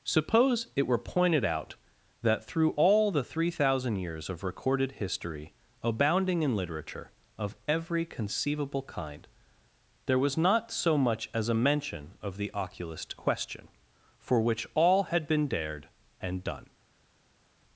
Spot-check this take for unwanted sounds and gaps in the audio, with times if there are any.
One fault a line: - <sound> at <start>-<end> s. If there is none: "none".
none